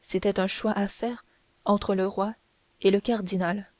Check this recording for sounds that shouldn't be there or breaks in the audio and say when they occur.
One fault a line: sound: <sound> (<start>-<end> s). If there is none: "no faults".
no faults